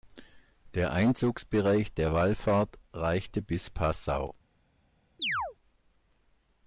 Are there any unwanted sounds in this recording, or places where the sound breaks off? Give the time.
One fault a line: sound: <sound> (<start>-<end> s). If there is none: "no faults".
sound: chirp (5.2-5.6 s)